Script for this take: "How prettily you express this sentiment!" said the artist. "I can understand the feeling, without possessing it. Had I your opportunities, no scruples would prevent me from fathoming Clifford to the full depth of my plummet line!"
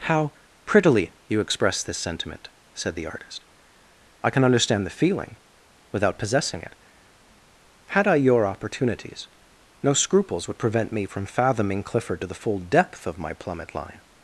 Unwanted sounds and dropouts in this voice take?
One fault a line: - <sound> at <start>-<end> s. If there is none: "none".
none